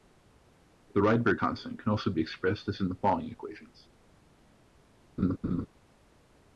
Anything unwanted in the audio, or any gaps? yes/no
yes